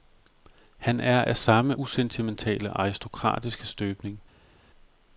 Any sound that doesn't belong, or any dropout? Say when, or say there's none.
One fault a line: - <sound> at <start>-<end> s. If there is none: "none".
none